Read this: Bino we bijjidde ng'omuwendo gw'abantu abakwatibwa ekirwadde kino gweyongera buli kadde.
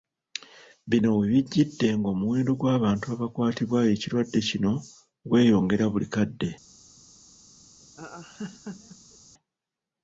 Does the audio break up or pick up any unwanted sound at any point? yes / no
yes